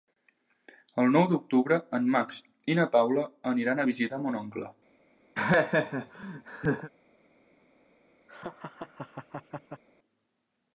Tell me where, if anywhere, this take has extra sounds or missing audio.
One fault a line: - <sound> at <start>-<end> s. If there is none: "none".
- laugh at 5.3-6.9 s
- laugh at 8.3-9.8 s